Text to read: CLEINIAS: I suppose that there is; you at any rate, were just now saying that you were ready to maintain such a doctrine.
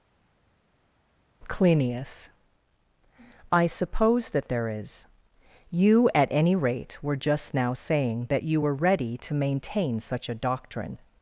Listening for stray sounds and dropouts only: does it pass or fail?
pass